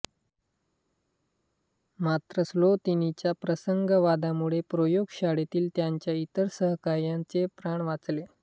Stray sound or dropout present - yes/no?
no